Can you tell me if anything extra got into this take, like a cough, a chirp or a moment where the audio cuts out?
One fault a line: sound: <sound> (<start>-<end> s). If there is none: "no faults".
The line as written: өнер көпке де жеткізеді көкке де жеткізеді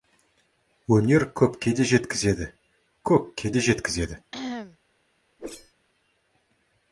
sound: cough (4.3-4.8 s)
sound: whoosh (5.4-5.7 s)